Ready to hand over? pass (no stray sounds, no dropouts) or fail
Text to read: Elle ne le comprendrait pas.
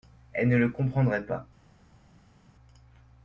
pass